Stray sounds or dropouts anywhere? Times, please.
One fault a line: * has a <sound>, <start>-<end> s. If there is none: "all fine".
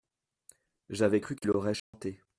* has a dropout, 1.8-1.9 s